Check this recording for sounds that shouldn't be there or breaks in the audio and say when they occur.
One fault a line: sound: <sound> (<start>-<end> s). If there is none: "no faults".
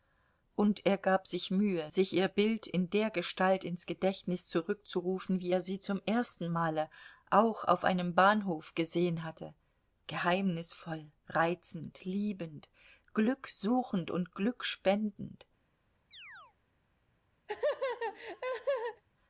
sound: chirp (16.1-16.6 s)
sound: laugh (17.5-19.0 s)